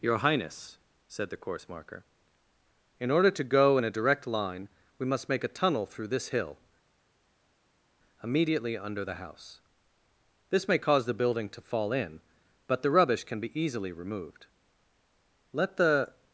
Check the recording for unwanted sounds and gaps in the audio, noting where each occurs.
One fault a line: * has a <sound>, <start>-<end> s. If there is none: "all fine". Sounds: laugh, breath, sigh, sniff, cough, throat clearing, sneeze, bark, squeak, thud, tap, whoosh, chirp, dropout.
all fine